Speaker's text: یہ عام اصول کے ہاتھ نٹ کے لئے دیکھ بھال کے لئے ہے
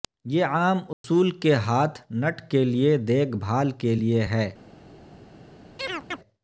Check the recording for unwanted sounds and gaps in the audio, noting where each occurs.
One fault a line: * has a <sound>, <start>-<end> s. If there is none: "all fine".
* has a dropout, 0.9-1.0 s
* has a chirp, 5.8-6.2 s